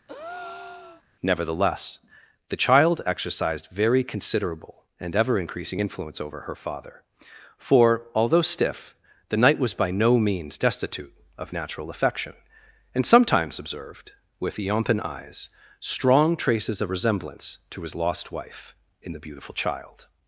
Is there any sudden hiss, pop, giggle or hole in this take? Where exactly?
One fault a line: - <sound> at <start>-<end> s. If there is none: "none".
- breath at 0.1-1.0 s